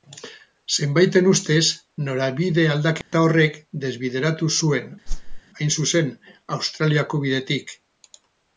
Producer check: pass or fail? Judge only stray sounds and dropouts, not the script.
fail